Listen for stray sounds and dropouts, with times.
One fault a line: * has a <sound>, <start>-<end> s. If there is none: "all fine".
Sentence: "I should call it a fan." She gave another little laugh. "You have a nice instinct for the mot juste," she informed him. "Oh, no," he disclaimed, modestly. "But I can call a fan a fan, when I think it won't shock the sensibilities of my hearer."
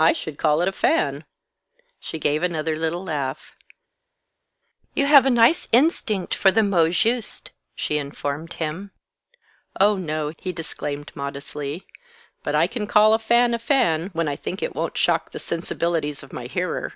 all fine